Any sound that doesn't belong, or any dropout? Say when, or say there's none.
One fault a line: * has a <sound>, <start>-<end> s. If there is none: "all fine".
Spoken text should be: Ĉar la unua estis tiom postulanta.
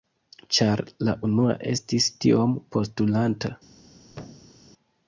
* has a thud, 4.1-4.6 s